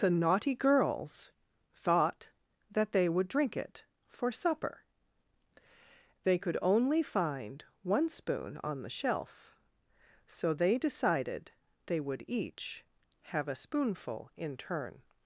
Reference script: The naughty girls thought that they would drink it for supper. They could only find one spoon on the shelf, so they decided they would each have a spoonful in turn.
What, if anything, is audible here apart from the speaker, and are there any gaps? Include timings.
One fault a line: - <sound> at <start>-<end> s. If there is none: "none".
none